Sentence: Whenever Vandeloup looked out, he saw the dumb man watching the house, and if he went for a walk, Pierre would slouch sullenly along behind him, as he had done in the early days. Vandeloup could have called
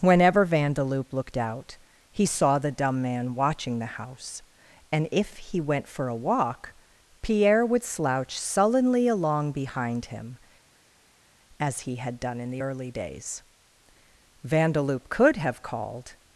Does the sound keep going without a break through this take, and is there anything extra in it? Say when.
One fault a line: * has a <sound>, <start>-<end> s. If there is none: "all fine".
all fine